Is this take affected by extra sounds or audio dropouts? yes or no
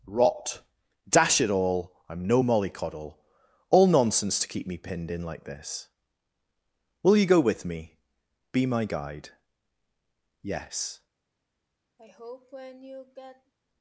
yes